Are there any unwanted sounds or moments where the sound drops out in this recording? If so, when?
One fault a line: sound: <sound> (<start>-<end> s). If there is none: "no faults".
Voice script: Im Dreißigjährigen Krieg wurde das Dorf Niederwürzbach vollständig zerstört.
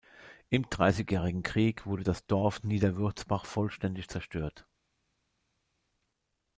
no faults